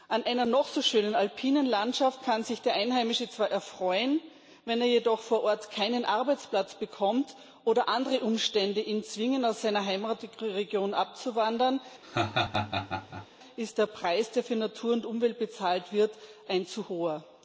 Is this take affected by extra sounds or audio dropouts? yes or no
yes